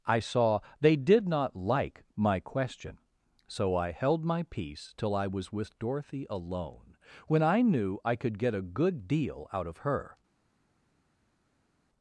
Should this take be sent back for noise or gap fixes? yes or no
no